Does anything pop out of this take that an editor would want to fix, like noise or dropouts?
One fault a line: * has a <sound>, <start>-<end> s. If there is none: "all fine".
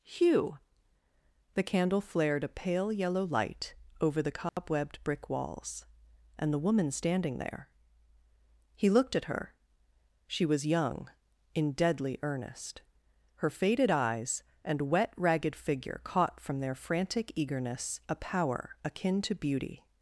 * has a dropout, 4.5-4.6 s